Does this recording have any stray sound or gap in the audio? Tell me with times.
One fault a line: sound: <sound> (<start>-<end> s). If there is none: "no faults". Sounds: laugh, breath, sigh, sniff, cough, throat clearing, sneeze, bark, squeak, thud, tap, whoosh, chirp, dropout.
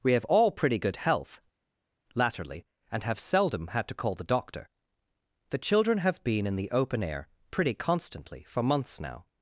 no faults